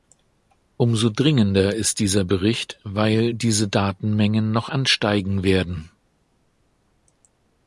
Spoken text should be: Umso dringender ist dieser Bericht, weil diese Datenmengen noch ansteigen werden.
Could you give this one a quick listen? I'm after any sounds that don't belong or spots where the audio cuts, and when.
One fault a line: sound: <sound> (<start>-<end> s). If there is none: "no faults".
no faults